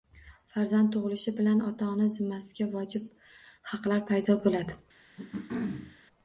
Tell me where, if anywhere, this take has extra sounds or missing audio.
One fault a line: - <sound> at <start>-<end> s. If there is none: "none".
- throat clearing at 5.2-6.0 s